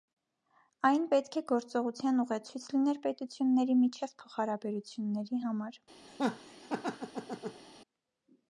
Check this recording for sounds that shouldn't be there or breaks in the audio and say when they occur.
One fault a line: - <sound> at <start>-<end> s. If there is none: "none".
- laugh at 6.1-7.6 s